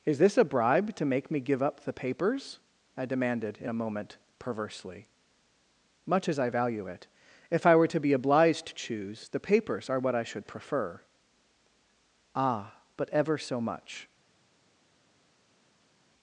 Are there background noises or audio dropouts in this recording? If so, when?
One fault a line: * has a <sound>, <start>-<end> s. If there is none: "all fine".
all fine